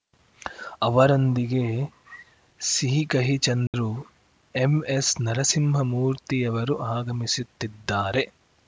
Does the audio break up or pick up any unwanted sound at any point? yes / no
yes